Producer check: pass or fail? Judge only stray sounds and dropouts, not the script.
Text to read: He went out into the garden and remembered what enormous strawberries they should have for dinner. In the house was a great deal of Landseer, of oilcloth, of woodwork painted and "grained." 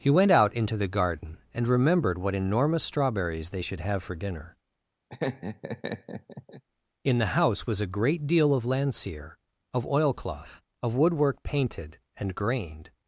fail